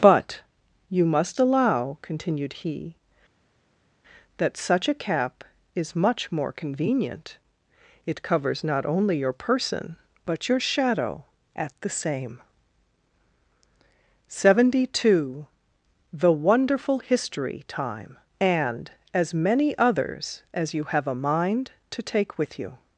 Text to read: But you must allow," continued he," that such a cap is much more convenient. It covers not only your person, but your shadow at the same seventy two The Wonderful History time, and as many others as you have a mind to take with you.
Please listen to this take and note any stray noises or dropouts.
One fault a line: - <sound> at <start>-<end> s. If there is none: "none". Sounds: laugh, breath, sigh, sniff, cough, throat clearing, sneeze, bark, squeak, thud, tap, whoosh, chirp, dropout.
none